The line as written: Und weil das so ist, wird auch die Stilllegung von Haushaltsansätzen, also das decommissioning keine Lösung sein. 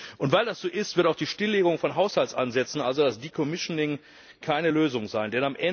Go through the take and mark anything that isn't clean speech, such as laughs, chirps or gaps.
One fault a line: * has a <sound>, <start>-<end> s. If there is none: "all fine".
all fine